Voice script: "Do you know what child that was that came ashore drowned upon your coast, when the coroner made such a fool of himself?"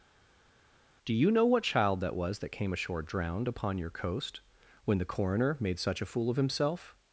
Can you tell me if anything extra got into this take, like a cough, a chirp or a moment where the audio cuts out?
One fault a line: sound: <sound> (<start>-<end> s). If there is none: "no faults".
no faults